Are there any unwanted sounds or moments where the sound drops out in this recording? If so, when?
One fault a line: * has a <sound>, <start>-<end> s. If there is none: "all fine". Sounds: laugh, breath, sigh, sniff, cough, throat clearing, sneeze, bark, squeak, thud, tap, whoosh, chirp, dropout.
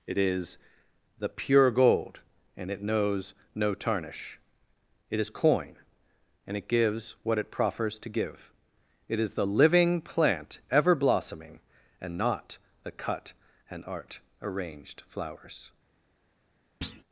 * has a thud, 16.8-17.0 s